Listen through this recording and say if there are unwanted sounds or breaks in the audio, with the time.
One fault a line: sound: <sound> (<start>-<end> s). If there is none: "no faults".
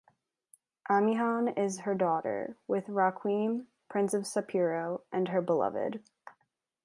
no faults